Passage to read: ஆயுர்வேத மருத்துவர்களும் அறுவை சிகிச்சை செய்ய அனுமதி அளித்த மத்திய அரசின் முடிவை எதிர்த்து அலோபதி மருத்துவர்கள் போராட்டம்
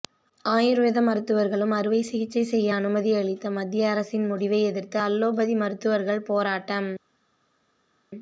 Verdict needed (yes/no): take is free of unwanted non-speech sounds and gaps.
yes